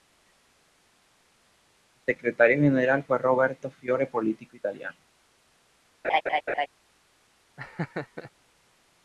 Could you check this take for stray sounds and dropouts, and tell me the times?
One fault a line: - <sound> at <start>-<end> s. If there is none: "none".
- laugh at 6.0-6.7 s
- laugh at 7.6-8.3 s